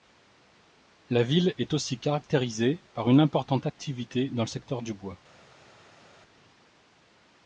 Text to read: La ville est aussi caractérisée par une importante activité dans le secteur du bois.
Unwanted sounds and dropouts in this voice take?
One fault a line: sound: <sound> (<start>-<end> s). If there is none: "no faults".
no faults